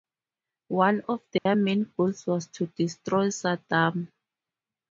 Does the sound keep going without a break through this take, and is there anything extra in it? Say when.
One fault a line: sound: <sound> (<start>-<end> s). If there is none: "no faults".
sound: dropout (1.4-1.5 s)